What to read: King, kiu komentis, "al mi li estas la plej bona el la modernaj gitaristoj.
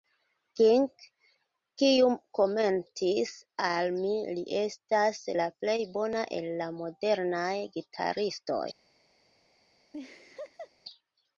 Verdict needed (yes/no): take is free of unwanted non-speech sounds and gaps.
no